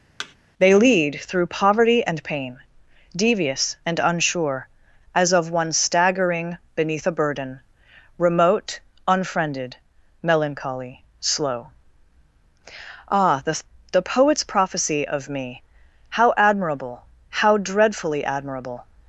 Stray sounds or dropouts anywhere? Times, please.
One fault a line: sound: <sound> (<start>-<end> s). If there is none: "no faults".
sound: thud (0.2-0.4 s)